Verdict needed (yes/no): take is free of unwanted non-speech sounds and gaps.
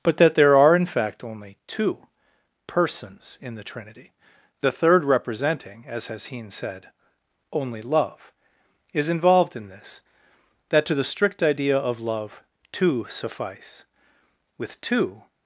yes